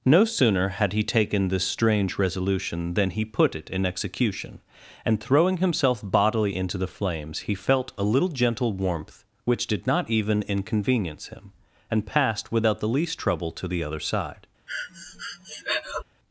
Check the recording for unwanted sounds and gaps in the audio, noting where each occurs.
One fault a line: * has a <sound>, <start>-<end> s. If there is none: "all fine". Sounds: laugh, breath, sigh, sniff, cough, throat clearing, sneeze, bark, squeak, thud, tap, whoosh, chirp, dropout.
* has a breath, 14.7-16.0 s